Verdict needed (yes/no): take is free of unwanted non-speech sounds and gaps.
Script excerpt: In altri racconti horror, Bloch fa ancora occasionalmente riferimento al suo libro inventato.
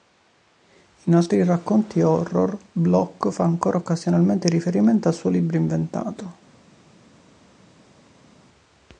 yes